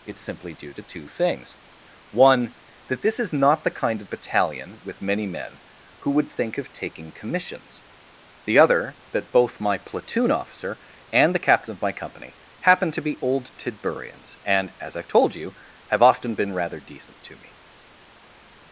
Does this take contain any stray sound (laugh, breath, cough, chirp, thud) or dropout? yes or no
no